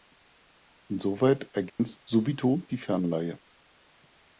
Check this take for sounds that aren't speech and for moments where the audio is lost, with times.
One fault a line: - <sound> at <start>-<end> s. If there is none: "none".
- dropout at 1.7-1.8 s